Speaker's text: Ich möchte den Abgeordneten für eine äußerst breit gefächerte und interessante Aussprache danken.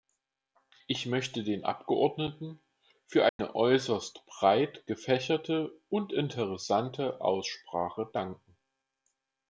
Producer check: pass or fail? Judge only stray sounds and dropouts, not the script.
fail